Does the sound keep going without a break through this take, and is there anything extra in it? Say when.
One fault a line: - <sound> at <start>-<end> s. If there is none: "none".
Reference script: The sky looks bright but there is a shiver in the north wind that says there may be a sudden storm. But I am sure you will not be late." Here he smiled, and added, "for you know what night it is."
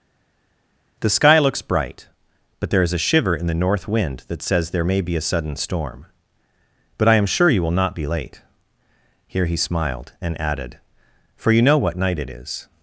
none